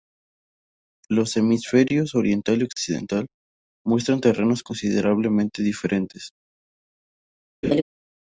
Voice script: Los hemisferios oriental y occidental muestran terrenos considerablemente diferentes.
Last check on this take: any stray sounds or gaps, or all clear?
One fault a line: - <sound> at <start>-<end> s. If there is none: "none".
- laugh at 7.6-7.8 s